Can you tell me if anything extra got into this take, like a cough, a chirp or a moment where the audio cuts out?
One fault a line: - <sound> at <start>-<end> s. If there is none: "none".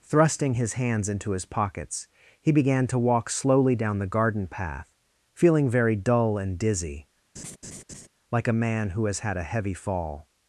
- laugh at 7.4-8.1 s